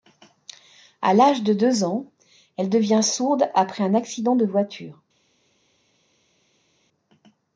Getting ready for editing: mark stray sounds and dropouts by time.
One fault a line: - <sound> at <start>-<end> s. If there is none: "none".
none